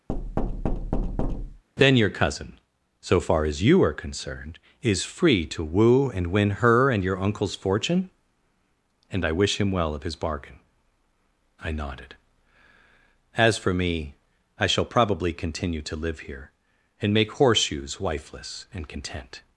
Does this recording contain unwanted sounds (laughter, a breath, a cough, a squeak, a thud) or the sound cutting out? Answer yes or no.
yes